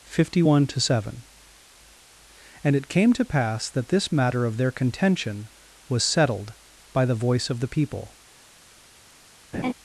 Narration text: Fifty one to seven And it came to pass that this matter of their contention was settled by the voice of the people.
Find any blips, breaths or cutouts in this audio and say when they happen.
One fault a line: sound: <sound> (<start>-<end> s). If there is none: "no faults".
sound: laugh (9.5-9.7 s)